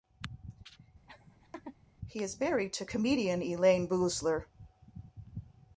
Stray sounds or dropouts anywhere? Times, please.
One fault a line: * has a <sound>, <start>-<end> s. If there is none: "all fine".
* has a laugh, 1.1-1.8 s